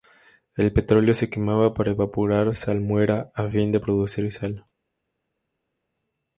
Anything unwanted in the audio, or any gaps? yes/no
no